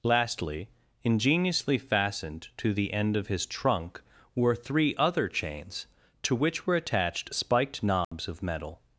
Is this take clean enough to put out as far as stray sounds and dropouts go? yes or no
no